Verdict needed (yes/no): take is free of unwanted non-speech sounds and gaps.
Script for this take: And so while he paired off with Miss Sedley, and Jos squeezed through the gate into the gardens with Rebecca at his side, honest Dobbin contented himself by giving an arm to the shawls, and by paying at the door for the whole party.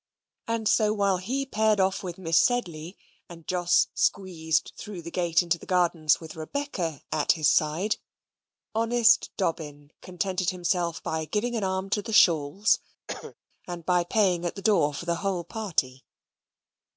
no